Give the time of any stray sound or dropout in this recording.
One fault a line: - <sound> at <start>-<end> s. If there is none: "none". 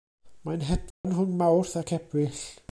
- dropout at 0.9-1.0 s